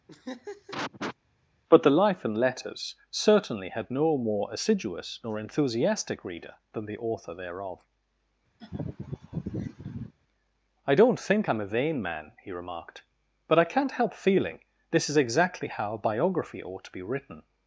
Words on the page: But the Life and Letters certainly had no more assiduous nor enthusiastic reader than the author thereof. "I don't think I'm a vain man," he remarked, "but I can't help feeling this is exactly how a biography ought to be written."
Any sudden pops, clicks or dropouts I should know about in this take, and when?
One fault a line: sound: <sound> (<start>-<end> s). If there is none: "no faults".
sound: laugh (0.1-1.2 s)
sound: laugh (8.6-10.1 s)